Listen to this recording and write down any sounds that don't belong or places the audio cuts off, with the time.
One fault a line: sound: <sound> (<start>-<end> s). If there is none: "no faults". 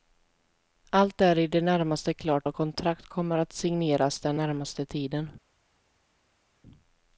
no faults